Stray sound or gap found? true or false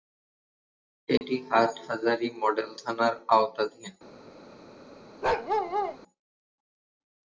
true